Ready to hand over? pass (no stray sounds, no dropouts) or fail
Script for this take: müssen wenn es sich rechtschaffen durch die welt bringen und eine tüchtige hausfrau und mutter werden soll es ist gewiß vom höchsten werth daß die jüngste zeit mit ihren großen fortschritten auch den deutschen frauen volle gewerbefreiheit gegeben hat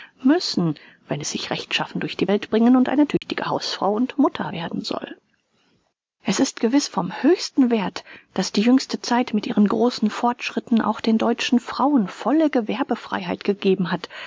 fail